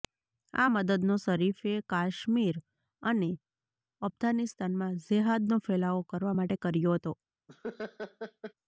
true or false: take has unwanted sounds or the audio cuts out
true